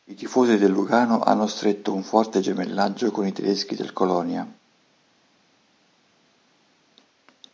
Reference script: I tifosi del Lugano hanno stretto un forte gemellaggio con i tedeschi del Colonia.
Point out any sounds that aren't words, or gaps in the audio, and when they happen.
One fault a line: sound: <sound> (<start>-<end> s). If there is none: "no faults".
no faults